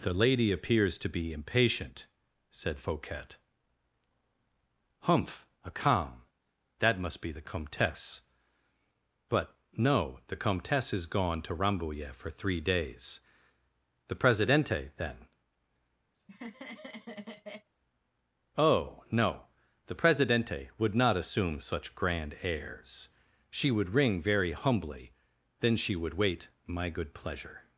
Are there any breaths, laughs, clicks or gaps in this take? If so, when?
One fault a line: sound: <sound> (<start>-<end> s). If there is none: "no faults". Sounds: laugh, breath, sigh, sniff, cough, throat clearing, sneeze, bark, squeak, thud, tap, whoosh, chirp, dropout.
sound: laugh (16.1-17.7 s)